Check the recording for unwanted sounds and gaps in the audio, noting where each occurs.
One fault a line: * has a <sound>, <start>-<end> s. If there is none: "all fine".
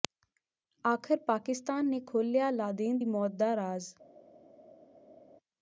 all fine